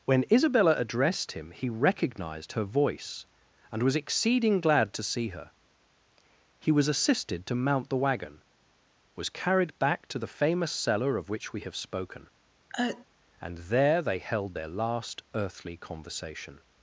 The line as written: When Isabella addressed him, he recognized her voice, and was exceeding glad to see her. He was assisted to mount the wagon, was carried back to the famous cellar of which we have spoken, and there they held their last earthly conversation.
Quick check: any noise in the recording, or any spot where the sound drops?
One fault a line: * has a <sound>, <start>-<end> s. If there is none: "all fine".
* has a sneeze, 12.7-13.1 s